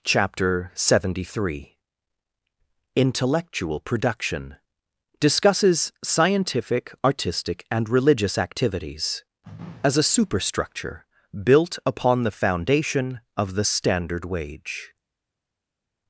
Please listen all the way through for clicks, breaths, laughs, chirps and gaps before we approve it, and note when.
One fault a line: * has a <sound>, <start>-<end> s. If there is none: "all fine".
all fine